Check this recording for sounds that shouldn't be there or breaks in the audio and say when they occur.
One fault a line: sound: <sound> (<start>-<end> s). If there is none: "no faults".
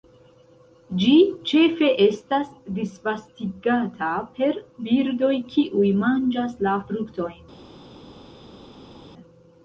no faults